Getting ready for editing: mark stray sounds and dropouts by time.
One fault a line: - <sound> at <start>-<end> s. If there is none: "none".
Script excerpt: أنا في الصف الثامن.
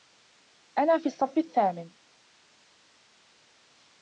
none